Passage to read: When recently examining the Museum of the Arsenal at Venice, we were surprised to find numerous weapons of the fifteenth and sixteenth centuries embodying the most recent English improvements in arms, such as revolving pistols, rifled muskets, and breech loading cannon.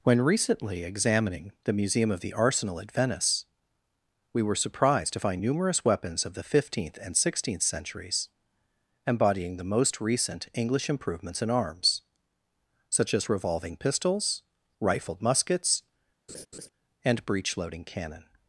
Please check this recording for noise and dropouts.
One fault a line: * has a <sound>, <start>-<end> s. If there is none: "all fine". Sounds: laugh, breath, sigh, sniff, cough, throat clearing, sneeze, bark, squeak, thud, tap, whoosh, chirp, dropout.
* has a laugh, 16.3-16.7 s